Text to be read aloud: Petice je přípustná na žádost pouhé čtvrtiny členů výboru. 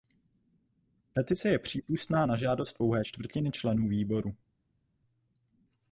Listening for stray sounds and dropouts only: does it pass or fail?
pass